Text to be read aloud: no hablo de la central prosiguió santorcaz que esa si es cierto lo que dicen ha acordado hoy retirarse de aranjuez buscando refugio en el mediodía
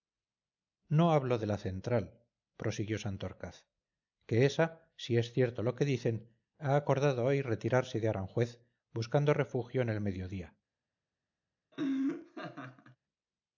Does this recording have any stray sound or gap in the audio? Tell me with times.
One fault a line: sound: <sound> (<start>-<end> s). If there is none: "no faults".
sound: laugh (11.7-13.0 s)